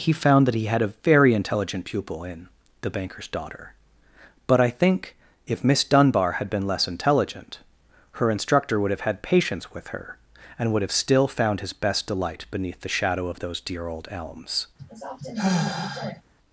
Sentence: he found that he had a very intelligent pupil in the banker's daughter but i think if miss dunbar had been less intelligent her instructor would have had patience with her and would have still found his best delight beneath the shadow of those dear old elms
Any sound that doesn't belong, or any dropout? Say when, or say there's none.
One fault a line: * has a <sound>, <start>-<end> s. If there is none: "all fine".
* has a sigh, 14.8-16.2 s